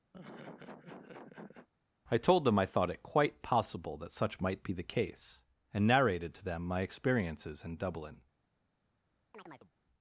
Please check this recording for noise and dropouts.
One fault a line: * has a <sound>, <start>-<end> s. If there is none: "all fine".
* has a laugh, 0.1-1.7 s
* has a chirp, 9.3-9.7 s